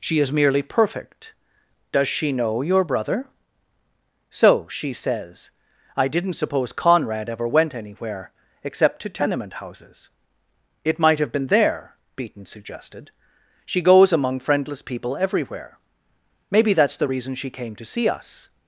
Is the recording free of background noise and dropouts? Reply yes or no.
yes